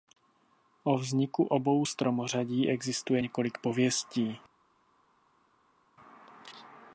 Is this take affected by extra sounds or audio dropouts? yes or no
no